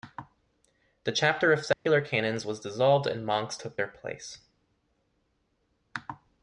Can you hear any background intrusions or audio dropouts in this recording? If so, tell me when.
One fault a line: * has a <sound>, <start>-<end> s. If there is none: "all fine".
* has a dropout, 1.7-1.9 s